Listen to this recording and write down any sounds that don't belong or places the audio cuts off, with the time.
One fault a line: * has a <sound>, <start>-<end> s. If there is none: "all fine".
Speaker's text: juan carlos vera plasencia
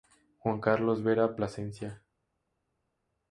all fine